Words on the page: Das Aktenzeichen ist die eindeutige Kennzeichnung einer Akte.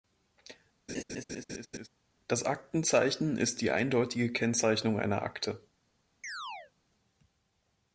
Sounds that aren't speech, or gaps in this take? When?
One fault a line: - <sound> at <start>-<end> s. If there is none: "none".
- laugh at 0.9-1.9 s
- chirp at 6.2-6.7 s